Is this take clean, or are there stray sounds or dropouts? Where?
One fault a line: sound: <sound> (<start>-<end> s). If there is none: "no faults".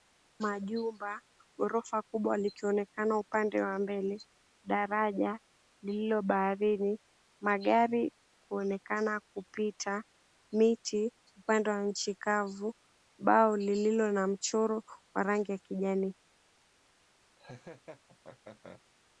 sound: laugh (17.4-18.8 s)